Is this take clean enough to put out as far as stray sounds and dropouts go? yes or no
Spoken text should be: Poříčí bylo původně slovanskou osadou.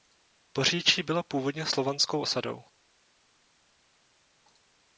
yes